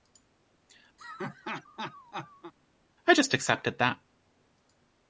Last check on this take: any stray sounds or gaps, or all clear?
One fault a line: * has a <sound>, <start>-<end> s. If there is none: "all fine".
* has a laugh, 1.0-2.5 s